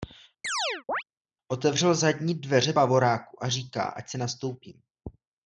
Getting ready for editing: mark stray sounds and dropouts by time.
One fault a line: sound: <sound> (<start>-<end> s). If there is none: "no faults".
sound: chirp (0.4-1.0 s)